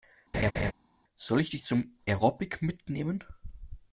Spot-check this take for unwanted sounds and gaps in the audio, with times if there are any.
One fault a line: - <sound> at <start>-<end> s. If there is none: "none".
- laugh at 0.3-0.7 s